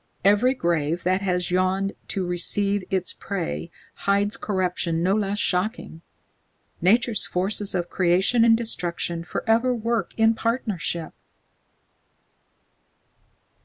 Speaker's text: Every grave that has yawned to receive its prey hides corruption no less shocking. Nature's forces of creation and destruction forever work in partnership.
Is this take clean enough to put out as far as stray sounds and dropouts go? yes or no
yes